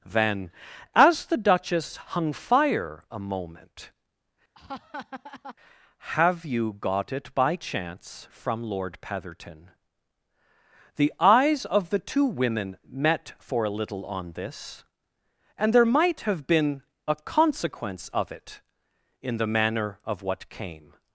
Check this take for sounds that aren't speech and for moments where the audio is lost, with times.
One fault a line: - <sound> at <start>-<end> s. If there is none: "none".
- laugh at 4.5-5.6 s